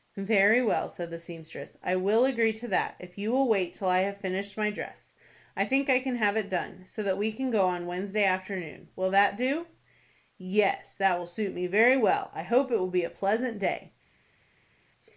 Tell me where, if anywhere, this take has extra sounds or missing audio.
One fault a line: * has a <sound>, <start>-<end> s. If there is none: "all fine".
all fine